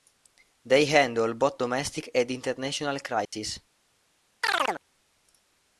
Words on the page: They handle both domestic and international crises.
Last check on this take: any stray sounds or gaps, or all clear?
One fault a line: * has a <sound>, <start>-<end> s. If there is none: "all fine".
* has a dropout, 3.3-3.3 s
* has a chirp, 4.4-4.8 s